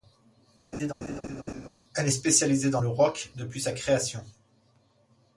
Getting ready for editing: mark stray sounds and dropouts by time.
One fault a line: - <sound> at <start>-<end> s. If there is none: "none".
- laugh at 0.7-1.7 s